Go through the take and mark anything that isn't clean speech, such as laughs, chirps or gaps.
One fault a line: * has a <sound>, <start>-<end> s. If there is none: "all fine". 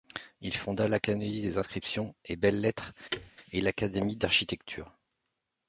* has a thud, 3.1-3.3 s